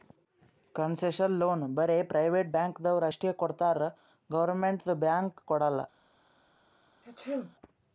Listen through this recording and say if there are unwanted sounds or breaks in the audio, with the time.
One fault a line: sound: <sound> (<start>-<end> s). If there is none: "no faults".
sound: sneeze (7.0-7.6 s)